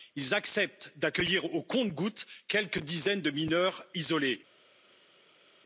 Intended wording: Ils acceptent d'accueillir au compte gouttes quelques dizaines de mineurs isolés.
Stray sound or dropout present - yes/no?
no